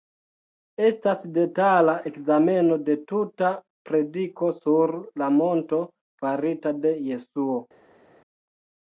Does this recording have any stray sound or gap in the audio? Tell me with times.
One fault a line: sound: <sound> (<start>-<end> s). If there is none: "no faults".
no faults